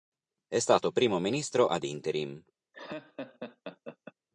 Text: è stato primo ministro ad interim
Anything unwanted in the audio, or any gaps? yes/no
yes